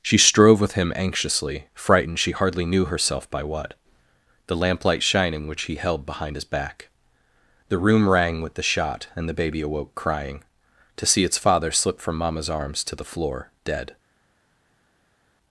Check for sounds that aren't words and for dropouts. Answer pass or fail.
pass